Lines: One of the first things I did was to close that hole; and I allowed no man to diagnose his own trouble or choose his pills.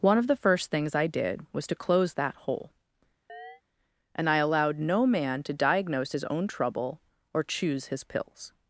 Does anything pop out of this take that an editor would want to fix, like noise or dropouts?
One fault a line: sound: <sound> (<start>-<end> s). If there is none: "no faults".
sound: chirp (3.3-3.6 s)